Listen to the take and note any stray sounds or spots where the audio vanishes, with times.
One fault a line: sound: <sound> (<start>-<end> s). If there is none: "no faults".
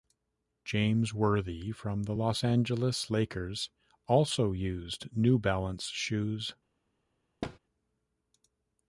sound: thud (7.4-7.6 s)